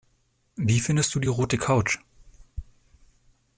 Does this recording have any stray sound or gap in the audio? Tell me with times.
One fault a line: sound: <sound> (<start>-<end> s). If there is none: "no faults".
no faults